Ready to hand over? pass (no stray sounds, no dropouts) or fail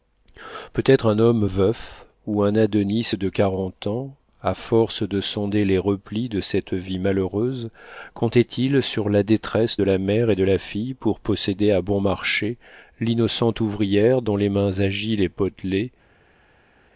pass